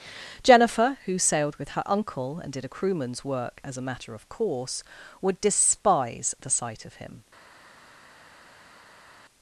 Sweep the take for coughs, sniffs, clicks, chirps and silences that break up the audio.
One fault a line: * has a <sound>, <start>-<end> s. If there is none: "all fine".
all fine